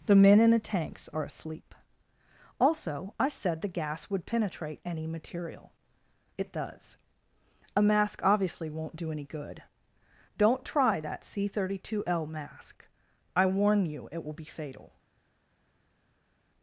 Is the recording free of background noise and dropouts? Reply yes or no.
yes